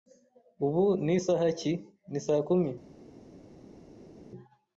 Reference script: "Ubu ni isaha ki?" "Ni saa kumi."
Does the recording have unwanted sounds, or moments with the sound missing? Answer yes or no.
no